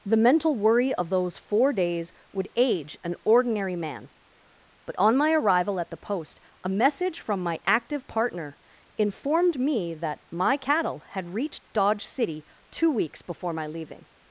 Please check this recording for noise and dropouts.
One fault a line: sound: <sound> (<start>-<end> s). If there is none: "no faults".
no faults